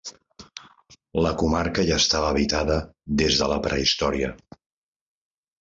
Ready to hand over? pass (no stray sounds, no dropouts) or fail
pass